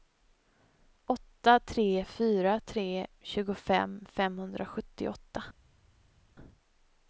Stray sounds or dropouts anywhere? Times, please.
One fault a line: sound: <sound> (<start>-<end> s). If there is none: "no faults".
no faults